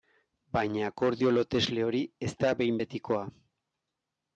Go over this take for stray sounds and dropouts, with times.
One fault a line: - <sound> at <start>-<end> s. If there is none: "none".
none